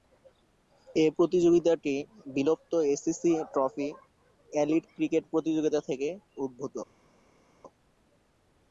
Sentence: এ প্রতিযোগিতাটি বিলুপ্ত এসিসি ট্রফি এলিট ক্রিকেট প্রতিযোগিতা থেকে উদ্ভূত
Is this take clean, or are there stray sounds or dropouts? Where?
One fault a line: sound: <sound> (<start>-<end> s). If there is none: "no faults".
no faults